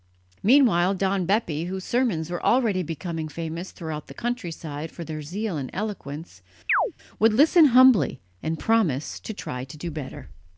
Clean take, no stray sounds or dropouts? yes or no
no